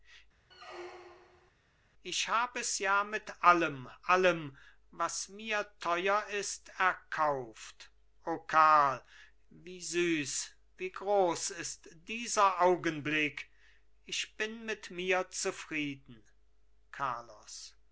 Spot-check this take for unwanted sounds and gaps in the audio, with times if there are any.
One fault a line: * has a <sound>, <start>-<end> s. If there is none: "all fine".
* has a squeak, 0.5-1.5 s